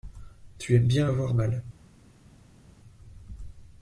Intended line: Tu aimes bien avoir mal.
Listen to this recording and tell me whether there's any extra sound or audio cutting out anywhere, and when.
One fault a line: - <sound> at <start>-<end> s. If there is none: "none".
none